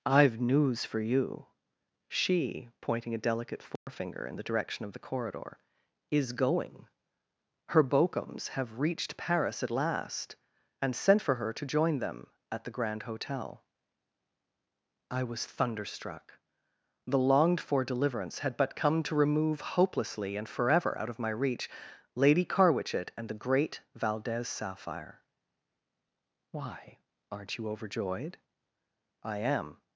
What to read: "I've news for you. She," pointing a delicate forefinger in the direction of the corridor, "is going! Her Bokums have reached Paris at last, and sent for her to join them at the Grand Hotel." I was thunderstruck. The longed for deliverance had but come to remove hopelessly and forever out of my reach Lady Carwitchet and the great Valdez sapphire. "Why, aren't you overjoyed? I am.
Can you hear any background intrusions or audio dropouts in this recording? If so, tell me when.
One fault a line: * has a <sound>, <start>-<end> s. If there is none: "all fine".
* has a dropout, 3.8-3.9 s